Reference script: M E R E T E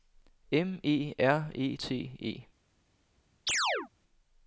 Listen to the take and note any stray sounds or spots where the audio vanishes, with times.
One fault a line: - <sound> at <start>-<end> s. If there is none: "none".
- chirp at 3.5-3.9 s